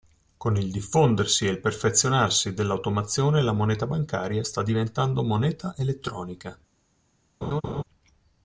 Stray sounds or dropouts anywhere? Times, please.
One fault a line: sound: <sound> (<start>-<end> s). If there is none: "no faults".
sound: laugh (7.4-7.8 s)